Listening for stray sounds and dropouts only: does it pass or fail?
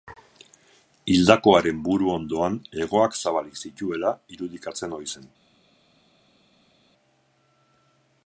pass